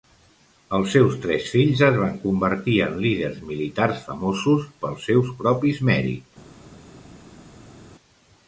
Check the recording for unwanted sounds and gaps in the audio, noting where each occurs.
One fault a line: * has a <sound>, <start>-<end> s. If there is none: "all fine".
all fine